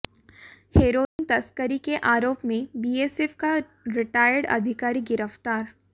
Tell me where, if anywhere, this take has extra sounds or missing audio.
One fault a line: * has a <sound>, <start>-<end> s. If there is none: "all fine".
* has a dropout, 1.1-1.2 s